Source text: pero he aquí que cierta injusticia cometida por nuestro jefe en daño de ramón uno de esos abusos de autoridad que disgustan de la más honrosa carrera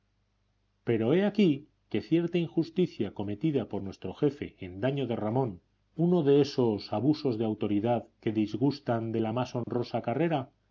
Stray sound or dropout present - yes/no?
yes